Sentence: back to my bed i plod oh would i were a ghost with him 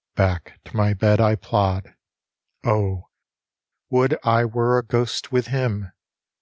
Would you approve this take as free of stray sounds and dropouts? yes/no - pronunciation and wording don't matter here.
yes